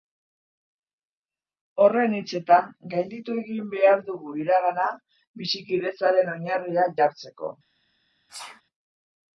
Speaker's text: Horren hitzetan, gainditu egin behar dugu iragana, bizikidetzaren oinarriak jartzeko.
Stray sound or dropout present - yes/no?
yes